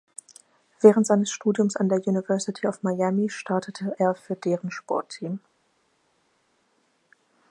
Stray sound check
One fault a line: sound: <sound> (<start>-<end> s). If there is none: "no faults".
no faults